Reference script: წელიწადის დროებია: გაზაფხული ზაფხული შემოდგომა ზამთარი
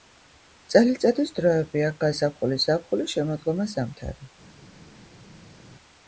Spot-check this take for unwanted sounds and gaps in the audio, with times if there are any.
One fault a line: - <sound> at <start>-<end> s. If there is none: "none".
none